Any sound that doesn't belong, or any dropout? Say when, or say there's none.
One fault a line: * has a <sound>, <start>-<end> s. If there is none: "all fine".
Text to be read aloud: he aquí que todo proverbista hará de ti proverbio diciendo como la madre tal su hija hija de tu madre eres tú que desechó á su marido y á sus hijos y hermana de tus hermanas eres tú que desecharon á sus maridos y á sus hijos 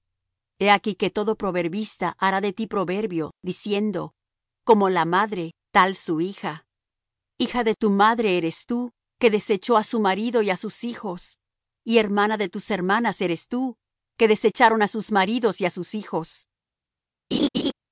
* has a laugh, 17.3-17.7 s